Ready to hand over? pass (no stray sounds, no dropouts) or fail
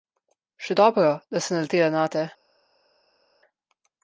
pass